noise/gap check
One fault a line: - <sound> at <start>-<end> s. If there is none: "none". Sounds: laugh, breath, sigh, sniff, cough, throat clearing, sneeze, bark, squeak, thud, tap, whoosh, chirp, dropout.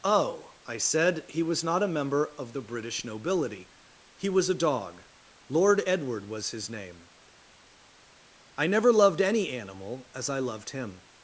none